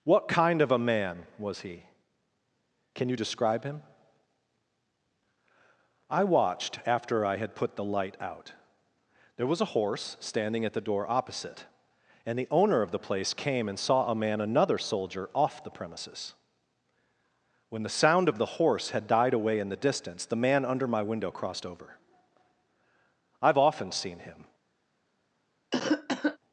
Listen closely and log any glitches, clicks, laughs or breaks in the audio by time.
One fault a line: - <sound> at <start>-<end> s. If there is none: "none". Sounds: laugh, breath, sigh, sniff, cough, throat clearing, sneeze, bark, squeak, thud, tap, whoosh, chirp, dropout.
- cough at 25.7-26.4 s